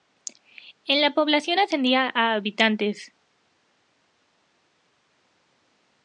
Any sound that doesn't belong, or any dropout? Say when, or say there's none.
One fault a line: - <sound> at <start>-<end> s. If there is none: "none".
none